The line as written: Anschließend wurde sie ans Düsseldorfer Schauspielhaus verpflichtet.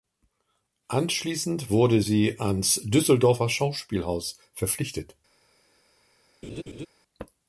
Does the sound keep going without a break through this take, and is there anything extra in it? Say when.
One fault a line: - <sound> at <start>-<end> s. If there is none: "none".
- laugh at 6.4-6.9 s